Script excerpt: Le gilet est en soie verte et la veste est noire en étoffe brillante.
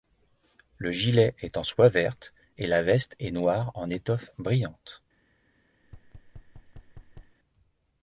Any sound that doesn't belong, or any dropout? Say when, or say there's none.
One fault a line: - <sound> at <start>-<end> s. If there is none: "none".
- thud at 5.8-7.4 s